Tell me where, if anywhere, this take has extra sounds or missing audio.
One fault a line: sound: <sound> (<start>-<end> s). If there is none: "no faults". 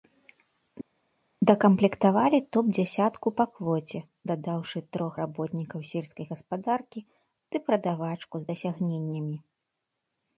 no faults